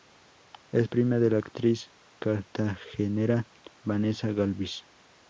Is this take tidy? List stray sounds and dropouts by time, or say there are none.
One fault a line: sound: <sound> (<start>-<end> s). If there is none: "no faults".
no faults